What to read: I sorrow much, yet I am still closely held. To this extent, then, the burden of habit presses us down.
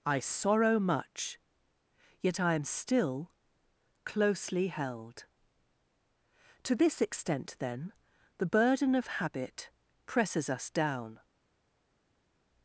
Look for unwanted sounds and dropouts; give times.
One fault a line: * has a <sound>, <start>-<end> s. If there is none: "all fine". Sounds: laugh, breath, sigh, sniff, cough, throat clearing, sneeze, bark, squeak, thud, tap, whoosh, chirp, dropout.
all fine